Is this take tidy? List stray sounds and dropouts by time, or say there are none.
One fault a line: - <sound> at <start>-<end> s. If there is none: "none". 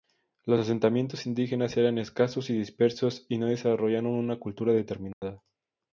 - dropout at 5.1-5.2 s